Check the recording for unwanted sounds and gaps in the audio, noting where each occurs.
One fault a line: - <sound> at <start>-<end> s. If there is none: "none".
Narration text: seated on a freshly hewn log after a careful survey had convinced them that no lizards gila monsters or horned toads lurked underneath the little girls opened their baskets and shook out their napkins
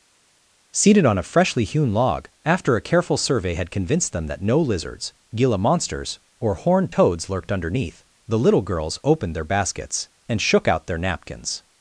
none